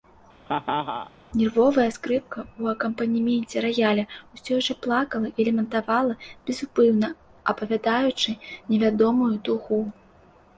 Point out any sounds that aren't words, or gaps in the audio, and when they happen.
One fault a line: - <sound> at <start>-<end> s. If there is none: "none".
- laugh at 0.5-1.1 s